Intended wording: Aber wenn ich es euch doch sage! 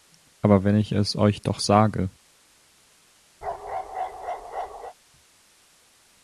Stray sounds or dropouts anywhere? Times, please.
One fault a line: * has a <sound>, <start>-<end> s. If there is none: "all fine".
* has a bark, 3.4-4.9 s